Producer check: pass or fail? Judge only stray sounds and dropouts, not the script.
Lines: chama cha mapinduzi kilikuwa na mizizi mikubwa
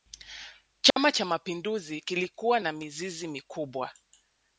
fail